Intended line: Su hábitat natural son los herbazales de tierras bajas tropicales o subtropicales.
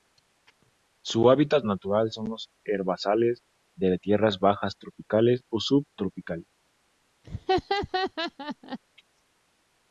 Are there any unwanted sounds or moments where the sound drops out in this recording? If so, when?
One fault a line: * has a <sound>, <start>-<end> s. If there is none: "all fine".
* has a laugh, 7.2-8.8 s